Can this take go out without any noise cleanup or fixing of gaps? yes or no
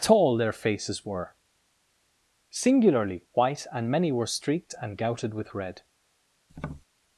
no